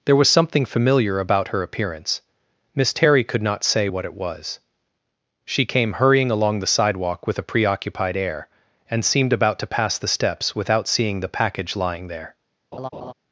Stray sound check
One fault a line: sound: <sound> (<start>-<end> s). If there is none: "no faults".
sound: laugh (12.7-13.1 s)